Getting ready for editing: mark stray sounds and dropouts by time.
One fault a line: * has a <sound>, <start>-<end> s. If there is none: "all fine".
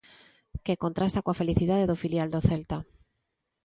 all fine